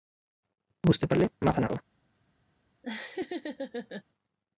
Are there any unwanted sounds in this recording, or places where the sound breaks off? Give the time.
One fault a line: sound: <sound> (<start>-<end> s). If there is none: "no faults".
sound: laugh (2.8-4.0 s)